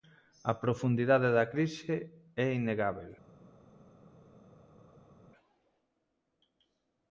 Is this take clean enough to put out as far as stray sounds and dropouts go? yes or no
yes